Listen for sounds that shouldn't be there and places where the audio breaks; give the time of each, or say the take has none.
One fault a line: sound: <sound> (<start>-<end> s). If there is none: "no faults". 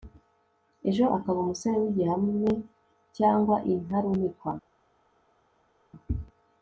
no faults